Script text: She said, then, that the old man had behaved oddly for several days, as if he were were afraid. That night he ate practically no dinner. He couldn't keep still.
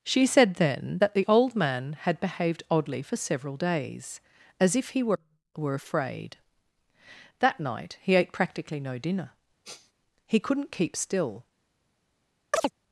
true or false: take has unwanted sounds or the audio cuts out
true